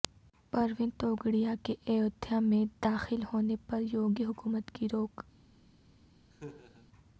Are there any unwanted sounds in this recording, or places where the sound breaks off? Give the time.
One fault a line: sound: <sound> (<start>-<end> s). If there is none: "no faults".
sound: laugh (6.3-6.9 s)